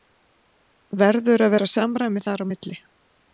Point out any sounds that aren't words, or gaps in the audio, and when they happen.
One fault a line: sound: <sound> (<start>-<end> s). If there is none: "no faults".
no faults